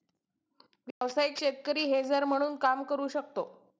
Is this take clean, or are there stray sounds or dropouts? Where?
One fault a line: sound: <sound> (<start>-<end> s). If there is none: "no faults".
sound: dropout (0.9-1.0 s)